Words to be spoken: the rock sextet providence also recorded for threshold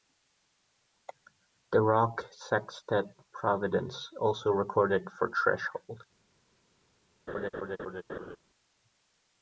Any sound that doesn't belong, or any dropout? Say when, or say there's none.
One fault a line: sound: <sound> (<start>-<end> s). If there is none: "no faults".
sound: laugh (7.3-8.4 s)